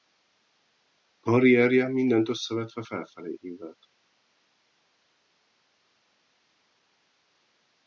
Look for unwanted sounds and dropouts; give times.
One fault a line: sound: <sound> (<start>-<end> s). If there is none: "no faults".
no faults